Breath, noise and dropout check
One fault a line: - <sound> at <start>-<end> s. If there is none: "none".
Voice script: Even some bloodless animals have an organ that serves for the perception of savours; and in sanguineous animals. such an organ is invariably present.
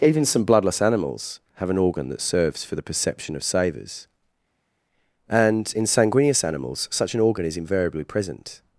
none